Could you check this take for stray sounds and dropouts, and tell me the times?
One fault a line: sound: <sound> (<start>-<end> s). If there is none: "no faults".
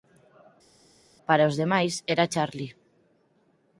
no faults